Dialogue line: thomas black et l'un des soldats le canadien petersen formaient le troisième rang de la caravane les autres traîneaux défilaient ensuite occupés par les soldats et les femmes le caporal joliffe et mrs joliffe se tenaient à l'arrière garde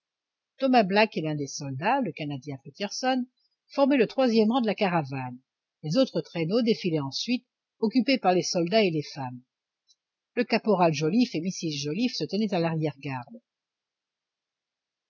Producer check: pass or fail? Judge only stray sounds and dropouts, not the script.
pass